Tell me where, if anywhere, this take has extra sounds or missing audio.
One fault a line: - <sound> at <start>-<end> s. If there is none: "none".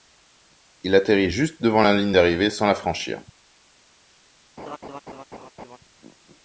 - laugh at 4.6-5.8 s